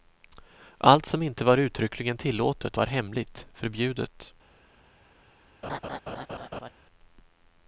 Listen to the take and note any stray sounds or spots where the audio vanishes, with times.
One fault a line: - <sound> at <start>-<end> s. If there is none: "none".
- laugh at 5.6-6.7 s